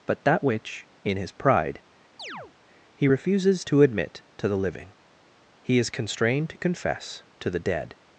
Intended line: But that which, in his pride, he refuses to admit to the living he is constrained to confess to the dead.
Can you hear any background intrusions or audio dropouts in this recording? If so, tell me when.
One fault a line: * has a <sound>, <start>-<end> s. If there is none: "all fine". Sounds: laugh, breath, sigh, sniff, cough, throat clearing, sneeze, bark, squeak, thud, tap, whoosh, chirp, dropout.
* has a chirp, 2.2-2.5 s